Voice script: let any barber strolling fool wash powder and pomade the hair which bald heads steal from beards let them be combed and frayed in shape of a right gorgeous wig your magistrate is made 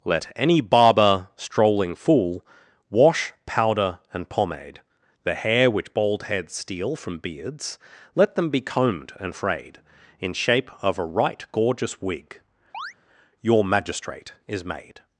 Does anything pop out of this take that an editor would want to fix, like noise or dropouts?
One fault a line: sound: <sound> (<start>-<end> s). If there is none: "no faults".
sound: chirp (12.7-12.9 s)